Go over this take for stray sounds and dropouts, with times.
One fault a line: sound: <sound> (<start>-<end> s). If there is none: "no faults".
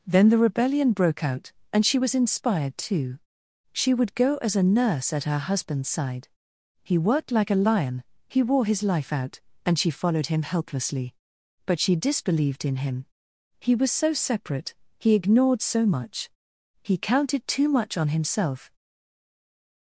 no faults